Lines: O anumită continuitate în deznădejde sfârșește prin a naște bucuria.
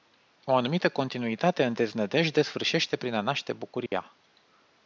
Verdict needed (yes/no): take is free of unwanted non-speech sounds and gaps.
no